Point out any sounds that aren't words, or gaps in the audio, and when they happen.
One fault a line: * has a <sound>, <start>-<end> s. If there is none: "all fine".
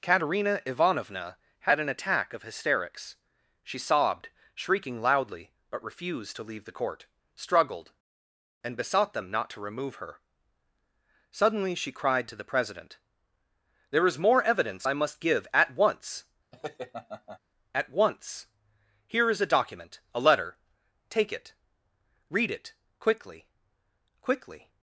* has a laugh, 16.5-17.4 s